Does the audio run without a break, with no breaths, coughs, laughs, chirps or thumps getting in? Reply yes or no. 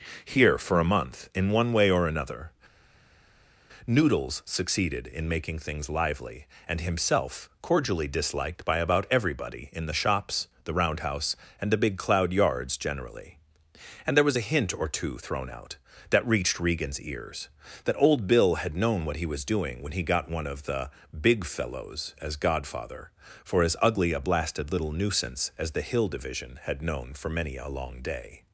yes